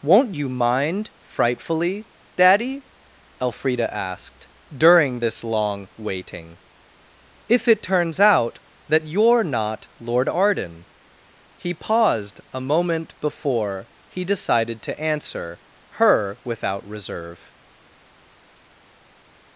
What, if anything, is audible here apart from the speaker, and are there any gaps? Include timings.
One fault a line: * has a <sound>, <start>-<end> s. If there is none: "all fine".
all fine